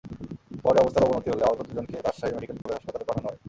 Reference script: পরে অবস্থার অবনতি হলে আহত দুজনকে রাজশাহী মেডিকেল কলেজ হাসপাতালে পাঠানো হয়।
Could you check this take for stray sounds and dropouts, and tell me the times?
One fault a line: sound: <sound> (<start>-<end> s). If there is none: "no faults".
sound: dropout (2.6-2.7 s)